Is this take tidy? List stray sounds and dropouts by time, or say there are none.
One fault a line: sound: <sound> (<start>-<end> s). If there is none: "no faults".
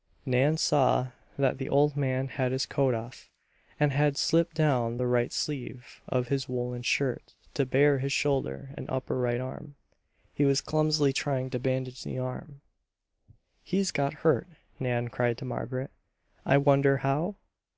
no faults